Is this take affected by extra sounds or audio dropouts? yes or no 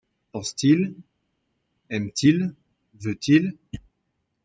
no